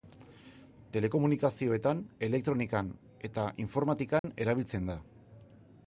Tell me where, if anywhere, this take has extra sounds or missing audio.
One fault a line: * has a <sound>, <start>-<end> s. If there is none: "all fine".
* has a dropout, 4.2-4.2 s